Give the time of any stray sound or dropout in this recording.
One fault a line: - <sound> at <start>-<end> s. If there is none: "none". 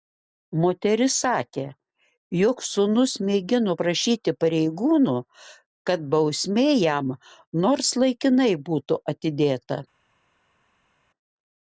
none